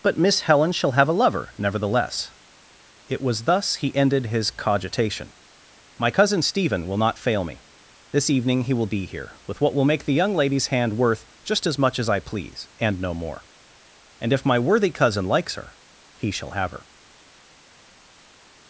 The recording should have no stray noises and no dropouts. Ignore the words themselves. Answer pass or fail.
pass